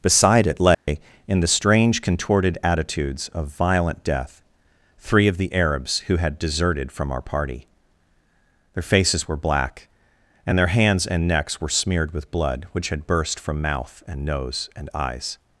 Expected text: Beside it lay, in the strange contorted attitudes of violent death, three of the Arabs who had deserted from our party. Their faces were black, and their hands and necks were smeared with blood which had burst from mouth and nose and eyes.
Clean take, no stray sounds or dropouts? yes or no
no